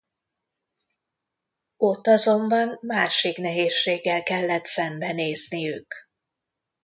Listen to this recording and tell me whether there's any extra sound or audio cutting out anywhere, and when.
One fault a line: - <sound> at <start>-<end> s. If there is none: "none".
none